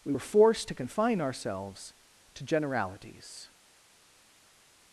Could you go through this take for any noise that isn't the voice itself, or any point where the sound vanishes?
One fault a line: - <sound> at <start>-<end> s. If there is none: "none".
none